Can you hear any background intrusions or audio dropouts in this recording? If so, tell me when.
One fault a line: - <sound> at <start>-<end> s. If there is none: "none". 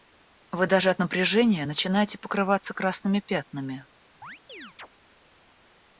- chirp at 4.2-4.9 s